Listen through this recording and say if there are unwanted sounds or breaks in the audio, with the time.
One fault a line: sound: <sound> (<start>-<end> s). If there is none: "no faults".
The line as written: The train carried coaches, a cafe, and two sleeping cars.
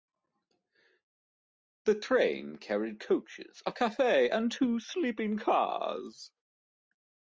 no faults